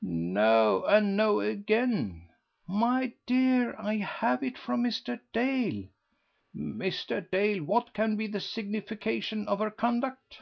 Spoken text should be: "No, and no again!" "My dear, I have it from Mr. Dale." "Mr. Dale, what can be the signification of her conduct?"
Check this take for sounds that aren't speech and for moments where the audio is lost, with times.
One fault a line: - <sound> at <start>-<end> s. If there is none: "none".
none